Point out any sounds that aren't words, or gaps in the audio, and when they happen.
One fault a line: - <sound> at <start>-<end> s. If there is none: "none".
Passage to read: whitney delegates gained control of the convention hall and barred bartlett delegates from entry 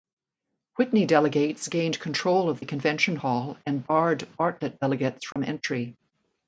- dropout at 5.3-5.4 s